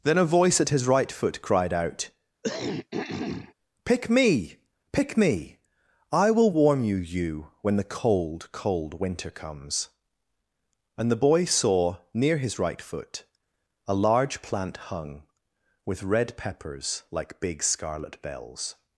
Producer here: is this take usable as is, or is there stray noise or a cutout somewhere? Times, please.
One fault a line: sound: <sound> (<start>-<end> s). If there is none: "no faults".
sound: throat clearing (2.4-3.5 s)